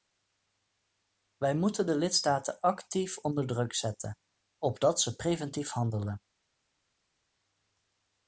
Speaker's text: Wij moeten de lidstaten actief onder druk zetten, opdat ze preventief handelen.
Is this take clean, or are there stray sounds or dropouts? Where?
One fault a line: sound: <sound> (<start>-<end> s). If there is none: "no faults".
no faults